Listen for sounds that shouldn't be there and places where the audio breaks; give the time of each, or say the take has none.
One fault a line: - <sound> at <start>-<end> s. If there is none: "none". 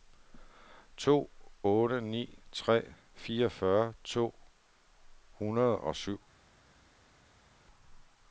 none